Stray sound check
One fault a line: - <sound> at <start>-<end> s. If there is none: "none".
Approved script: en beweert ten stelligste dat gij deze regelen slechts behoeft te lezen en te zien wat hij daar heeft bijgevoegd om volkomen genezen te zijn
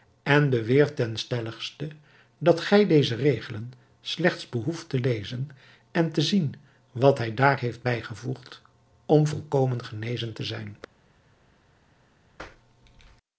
none